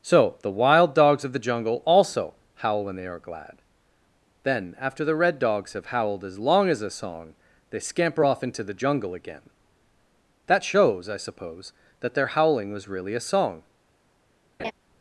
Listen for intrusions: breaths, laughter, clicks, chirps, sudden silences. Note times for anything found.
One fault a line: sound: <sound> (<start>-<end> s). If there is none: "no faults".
sound: laugh (14.6-14.7 s)